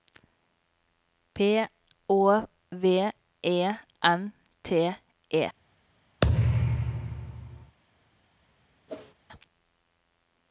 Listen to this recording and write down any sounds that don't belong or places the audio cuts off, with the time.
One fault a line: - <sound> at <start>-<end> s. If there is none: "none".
- thud at 6.2-7.8 s
- whoosh at 8.9-9.1 s